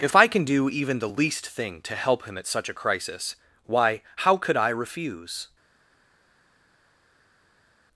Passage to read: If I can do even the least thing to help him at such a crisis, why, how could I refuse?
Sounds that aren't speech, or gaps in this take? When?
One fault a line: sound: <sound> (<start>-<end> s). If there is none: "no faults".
no faults